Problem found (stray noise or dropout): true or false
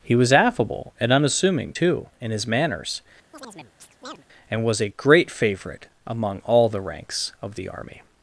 true